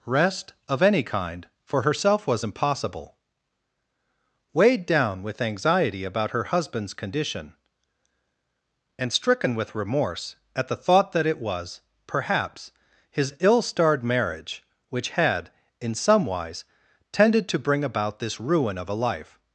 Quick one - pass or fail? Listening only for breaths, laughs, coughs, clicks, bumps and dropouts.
pass